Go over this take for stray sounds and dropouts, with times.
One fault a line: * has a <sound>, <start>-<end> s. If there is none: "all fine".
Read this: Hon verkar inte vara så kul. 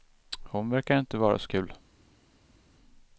all fine